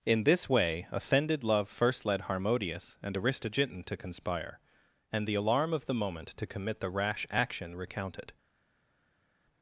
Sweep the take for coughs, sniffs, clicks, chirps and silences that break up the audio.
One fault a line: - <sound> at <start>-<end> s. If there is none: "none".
none